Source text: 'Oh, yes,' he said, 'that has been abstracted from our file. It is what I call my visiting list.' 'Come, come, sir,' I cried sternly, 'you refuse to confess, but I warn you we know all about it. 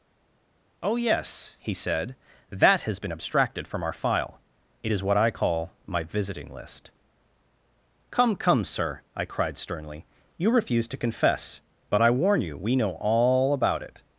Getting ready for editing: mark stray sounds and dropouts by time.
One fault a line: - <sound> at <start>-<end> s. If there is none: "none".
none